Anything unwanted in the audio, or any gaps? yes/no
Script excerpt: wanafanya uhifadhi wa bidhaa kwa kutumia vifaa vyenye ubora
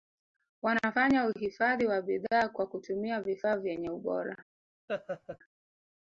yes